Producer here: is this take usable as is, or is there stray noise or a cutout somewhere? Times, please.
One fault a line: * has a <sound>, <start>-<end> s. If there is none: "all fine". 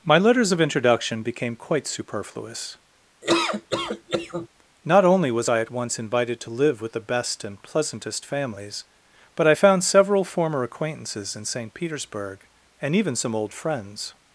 * has a laugh, 3.2-4.5 s